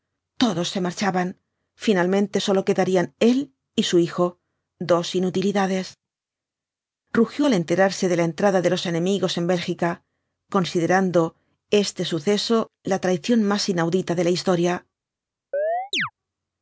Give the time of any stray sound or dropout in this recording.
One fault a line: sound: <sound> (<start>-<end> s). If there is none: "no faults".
sound: chirp (15.5-16.1 s)